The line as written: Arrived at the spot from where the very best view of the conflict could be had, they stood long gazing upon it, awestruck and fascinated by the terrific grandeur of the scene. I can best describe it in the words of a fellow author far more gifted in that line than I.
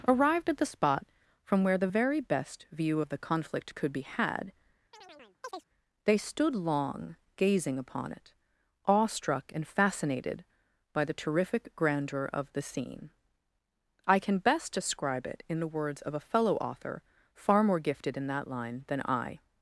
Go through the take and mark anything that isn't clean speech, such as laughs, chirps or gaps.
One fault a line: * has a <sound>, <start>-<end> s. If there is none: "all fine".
* has a chirp, 4.9-5.7 s